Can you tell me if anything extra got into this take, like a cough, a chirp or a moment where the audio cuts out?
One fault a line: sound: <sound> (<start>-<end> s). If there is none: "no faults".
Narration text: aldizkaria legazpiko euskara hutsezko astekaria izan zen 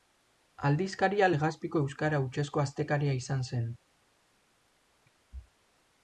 no faults